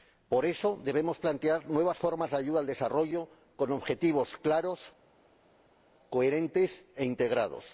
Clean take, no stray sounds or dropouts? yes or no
yes